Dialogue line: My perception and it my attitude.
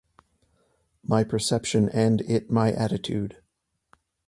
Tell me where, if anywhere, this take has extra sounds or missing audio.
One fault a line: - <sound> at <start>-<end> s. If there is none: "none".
none